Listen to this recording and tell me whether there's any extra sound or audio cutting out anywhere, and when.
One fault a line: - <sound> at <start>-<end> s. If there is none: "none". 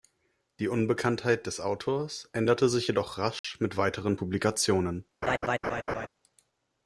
- dropout at 3.4-3.4 s
- laugh at 5.2-6.1 s